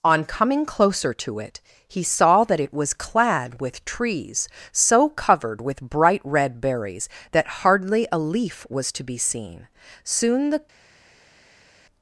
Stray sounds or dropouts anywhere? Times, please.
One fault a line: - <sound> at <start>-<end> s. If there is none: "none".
none